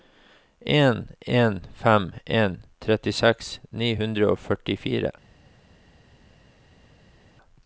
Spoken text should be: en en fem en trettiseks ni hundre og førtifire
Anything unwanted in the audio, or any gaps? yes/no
no